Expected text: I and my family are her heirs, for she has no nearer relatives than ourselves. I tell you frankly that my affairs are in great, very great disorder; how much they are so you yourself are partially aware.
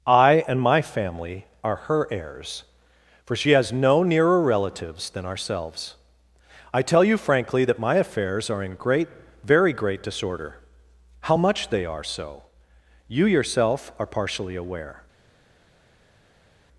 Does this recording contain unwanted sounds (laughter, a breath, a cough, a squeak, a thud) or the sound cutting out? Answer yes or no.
no